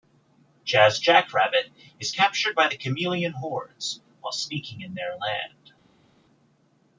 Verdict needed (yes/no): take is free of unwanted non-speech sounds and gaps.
yes